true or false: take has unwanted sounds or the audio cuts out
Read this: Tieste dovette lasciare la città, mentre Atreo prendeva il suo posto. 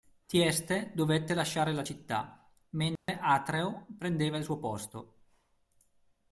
true